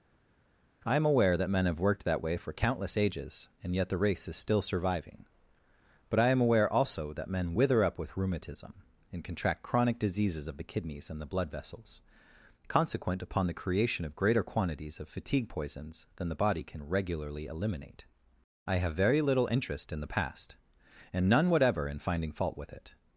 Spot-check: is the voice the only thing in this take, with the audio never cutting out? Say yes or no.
yes